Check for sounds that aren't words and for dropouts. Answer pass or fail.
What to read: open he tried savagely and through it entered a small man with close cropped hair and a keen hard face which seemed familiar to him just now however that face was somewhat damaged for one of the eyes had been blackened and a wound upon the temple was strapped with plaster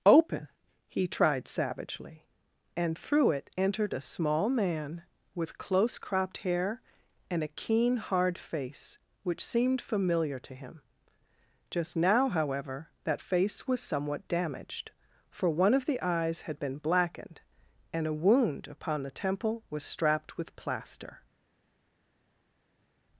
pass